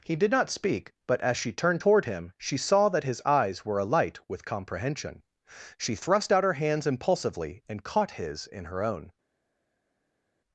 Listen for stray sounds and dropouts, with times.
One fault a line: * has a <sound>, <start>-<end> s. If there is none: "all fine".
all fine